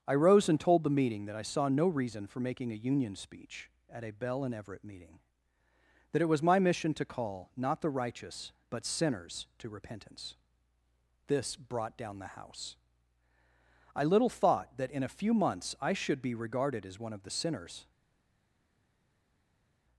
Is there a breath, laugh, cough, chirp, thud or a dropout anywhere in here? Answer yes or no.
no